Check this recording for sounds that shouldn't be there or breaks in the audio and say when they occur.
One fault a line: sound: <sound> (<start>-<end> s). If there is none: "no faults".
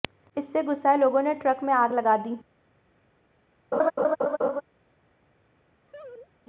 sound: laugh (3.7-4.6 s)
sound: laugh (5.9-6.3 s)